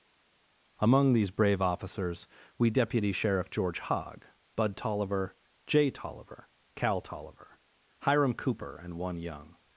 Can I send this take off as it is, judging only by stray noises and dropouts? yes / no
yes